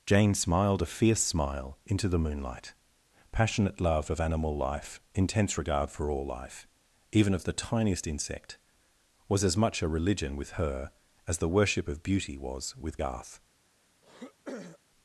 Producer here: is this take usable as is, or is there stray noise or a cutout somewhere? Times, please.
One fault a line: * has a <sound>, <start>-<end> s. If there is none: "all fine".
* has a throat clearing, 14.0-14.8 s